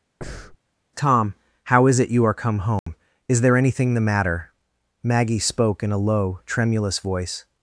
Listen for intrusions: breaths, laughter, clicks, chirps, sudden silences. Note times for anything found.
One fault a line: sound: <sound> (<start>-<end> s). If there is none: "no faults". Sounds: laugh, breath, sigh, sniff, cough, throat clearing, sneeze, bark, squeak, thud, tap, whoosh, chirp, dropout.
sound: breath (0.2-0.6 s)
sound: dropout (2.8-2.9 s)